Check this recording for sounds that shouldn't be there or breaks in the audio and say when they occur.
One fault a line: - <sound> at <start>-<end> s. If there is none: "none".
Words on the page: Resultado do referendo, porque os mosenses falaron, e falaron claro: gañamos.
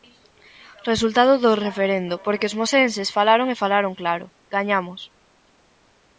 none